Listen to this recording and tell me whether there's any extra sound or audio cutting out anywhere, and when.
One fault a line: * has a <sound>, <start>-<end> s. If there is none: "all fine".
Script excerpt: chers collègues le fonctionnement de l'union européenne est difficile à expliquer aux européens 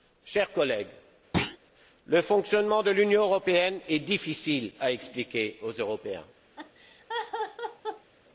* has a thud, 1.3-1.6 s
* has a laugh, 6.6-8.1 s